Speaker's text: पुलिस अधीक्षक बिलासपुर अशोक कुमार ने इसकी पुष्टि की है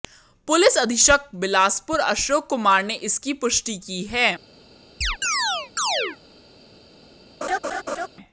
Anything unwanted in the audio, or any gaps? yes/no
yes